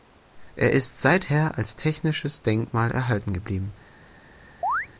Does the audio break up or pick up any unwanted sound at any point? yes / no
yes